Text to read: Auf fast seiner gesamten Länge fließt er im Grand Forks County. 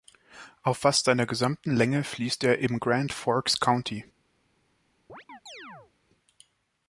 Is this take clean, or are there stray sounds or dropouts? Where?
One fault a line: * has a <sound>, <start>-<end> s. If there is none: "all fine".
* has a chirp, 5.1-5.9 s